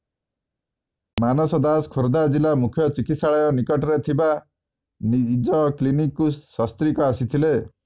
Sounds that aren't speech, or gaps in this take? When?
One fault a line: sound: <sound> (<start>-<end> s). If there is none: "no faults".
no faults